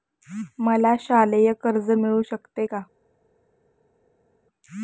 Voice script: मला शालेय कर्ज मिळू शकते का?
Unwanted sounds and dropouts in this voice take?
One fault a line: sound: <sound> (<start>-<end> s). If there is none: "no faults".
no faults